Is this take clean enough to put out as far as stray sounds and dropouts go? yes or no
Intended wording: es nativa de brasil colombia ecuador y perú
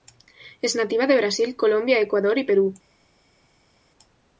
yes